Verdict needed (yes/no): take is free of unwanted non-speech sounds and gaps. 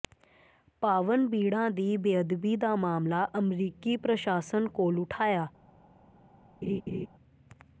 no